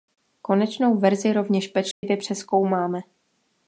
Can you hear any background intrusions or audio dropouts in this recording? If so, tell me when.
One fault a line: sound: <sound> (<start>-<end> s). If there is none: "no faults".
sound: dropout (1.9-2.0 s)